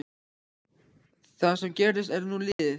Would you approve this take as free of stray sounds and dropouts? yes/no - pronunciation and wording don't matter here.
no